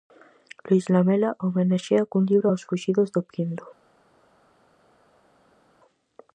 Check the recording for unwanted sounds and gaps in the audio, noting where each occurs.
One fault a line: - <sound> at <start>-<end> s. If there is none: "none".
none